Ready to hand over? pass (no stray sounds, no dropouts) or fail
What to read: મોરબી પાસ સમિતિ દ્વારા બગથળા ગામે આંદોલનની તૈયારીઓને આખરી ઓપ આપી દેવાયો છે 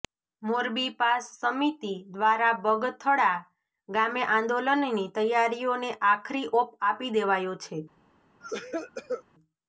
fail